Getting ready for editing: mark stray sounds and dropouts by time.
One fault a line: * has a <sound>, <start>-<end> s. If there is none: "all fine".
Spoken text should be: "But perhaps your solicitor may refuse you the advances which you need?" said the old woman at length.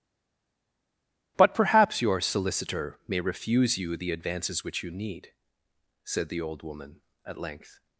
all fine